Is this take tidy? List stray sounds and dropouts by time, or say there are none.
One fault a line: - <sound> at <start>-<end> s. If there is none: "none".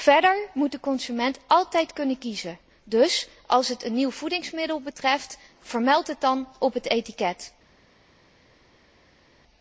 none